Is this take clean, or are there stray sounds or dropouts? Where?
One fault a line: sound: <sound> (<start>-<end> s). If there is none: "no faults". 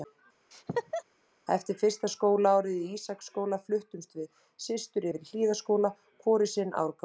sound: laugh (0.5-1.0 s)